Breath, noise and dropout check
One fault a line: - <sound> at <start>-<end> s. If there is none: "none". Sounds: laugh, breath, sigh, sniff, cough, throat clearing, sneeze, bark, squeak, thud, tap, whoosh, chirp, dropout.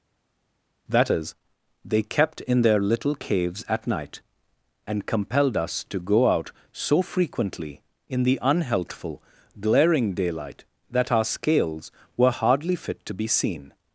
none